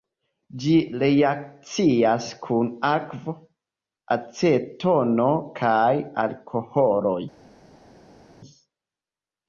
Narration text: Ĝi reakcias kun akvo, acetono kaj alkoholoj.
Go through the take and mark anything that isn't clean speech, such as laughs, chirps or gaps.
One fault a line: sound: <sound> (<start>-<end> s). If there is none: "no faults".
no faults